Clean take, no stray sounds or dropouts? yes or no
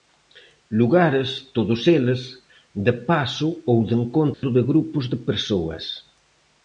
no